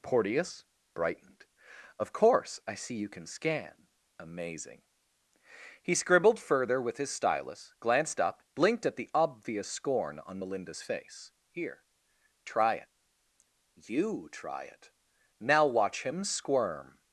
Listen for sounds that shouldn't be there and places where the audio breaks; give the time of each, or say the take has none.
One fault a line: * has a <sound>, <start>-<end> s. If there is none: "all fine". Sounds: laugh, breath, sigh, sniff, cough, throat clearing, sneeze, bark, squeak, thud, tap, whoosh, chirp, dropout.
all fine